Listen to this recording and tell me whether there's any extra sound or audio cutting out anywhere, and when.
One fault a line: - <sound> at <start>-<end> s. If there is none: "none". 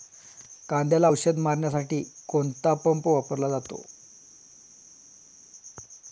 none